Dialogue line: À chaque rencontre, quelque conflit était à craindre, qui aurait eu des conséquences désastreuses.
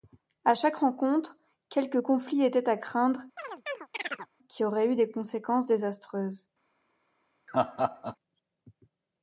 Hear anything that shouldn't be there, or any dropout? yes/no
yes